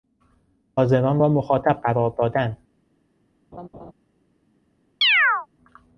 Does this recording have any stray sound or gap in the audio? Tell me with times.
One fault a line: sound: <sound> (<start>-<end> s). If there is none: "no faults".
sound: laugh (3.5-3.9 s)
sound: chirp (5.0-5.5 s)